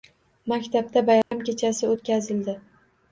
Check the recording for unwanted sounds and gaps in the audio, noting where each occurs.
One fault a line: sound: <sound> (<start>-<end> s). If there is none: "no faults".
sound: dropout (1.2-1.3 s)